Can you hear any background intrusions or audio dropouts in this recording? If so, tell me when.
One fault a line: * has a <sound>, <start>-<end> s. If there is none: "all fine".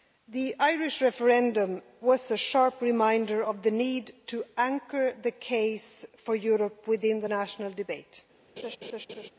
* has a laugh, 8.6-9.3 s